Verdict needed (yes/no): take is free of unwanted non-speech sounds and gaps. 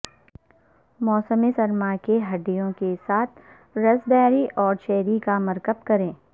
yes